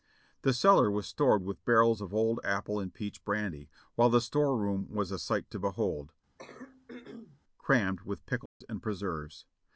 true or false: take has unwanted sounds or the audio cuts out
true